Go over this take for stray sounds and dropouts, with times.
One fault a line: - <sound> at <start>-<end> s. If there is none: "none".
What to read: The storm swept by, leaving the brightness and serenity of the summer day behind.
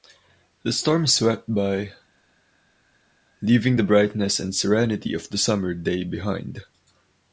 none